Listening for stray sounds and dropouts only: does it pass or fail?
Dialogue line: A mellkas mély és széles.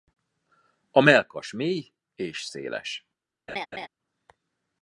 fail